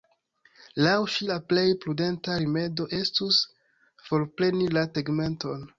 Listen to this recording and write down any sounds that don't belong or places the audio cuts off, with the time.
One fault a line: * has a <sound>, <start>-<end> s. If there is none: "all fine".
all fine